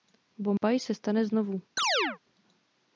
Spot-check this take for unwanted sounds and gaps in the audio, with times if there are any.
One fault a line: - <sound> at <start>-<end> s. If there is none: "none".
- dropout at 0.6-0.6 s
- chirp at 1.8-2.2 s